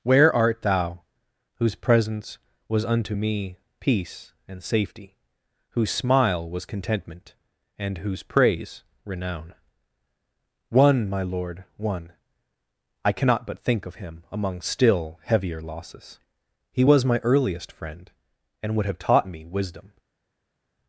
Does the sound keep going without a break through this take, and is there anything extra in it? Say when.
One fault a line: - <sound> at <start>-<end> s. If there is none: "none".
none